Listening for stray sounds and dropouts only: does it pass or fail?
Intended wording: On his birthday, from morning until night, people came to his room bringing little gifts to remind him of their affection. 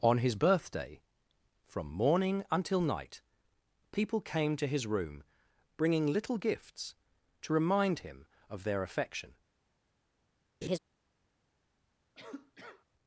fail